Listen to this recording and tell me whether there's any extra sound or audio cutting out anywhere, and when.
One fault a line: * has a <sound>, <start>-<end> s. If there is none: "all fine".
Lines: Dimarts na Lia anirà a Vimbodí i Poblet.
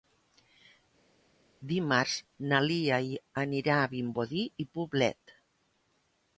all fine